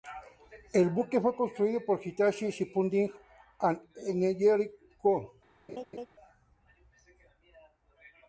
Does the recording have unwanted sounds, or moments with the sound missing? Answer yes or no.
yes